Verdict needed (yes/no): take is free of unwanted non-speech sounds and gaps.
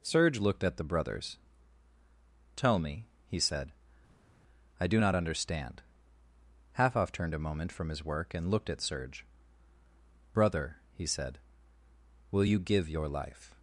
yes